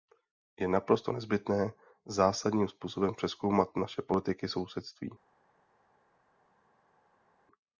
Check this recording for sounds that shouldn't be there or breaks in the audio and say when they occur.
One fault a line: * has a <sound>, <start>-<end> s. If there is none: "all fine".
all fine